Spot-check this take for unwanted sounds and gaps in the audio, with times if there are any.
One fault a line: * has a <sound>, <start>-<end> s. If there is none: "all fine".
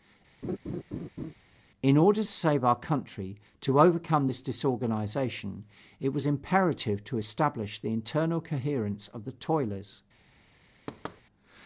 * has a laugh, 0.4-1.3 s
* has a thud, 10.9-11.2 s